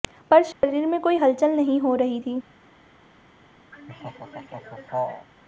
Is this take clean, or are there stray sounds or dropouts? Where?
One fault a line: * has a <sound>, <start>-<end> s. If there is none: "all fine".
* has a dropout, 0.5-0.6 s
* has a laugh, 3.7-5.3 s